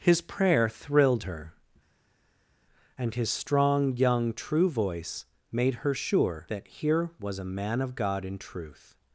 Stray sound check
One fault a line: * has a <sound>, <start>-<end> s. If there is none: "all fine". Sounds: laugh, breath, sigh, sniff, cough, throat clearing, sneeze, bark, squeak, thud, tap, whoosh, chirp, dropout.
all fine